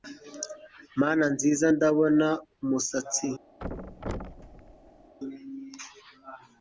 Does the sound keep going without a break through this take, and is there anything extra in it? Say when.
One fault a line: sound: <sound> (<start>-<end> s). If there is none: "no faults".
sound: thud (3.6-5.1 s)